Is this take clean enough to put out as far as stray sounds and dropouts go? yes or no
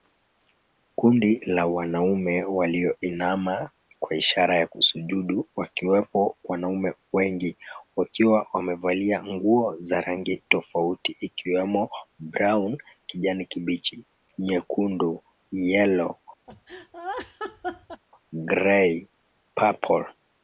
no